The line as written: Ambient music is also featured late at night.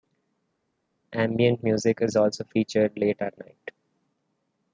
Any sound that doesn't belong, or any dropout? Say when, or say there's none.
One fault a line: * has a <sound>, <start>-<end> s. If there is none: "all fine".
all fine